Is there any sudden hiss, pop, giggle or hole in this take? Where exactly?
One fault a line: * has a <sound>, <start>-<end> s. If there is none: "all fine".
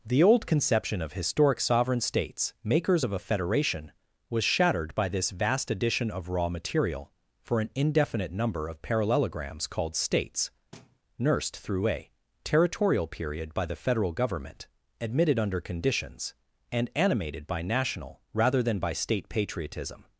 * has a thud, 10.7-11.0 s